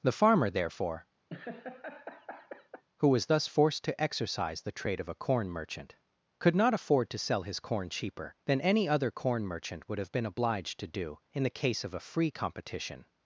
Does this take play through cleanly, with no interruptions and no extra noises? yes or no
no